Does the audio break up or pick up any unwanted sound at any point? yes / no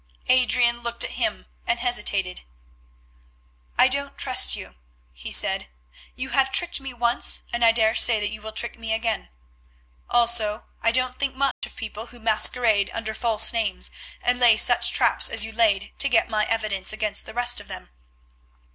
yes